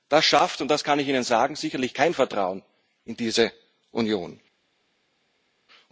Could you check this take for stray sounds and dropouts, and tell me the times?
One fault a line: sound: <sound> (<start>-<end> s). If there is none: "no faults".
no faults